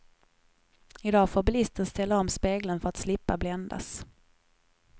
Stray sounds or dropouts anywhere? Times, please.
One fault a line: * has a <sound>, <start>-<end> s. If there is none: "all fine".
all fine